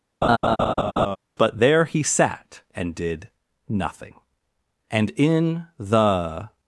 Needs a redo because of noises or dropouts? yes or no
yes